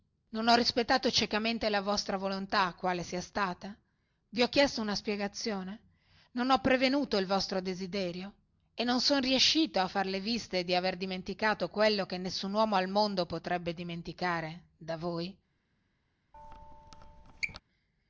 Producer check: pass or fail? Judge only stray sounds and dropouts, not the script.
fail